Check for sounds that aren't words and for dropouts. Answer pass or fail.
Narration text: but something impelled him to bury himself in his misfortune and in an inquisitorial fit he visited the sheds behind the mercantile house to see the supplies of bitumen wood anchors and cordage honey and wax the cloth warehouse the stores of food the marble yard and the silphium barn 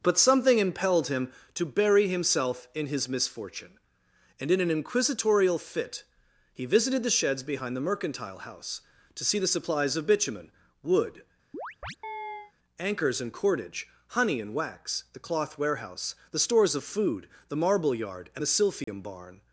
fail